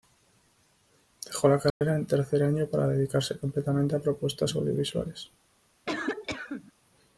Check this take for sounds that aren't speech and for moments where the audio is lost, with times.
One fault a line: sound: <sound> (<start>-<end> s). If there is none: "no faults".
sound: dropout (1.7-1.8 s)
sound: cough (5.9-6.7 s)